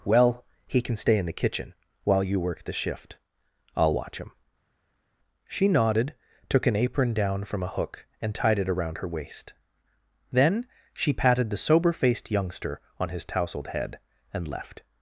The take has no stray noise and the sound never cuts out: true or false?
true